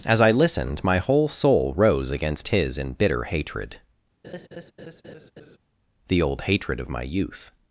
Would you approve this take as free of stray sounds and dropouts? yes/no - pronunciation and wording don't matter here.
no